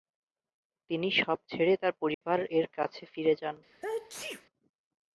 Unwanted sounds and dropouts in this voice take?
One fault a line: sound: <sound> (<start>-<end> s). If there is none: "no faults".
sound: dropout (2.1-2.2 s)
sound: sneeze (3.7-4.5 s)